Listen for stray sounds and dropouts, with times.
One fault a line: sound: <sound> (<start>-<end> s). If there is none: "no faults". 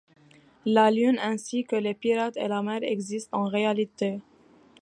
no faults